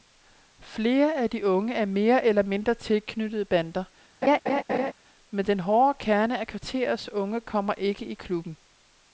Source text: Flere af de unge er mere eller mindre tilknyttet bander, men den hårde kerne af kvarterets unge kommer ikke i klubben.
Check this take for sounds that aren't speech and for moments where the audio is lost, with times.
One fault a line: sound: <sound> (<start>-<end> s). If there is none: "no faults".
sound: laugh (4.2-4.9 s)